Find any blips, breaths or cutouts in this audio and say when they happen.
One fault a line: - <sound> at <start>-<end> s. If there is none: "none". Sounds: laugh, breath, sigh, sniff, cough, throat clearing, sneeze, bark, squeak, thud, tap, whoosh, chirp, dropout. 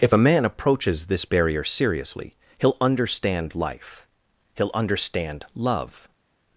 none